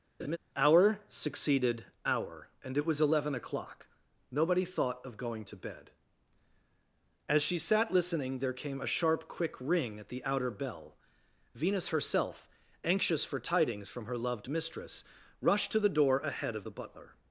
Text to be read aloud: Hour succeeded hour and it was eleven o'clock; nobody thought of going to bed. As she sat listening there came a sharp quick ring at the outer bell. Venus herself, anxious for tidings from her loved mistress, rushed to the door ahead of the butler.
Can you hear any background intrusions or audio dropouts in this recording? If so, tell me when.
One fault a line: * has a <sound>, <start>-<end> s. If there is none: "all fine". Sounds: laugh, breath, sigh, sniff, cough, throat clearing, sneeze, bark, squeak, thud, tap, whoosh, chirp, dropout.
* has a laugh, 0.2-0.4 s